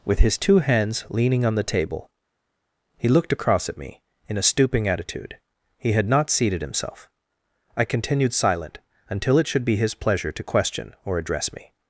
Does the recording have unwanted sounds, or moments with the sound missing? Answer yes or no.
no